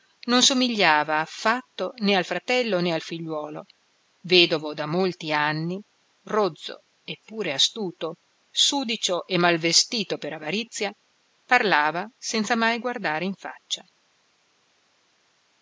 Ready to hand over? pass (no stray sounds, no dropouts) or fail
pass